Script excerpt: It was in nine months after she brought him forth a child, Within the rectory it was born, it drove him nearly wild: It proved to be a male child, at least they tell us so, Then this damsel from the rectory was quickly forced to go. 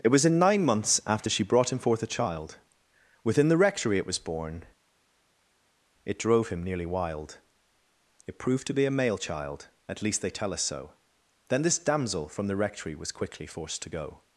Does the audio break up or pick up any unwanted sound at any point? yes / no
no